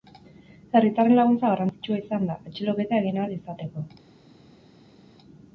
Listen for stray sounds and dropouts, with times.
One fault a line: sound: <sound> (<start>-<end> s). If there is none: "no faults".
no faults